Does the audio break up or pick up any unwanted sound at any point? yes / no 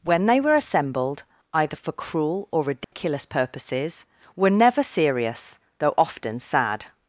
yes